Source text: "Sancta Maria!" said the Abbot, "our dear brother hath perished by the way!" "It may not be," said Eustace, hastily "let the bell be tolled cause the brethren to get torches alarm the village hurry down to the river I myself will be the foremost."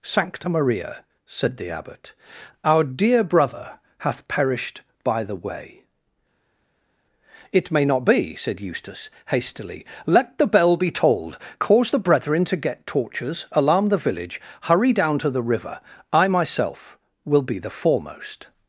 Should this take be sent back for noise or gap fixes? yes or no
no